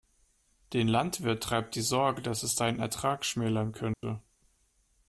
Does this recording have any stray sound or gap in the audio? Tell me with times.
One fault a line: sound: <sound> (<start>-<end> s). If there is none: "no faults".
sound: dropout (3.9-4.0 s)